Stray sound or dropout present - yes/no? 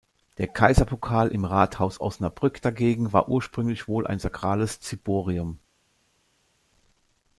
no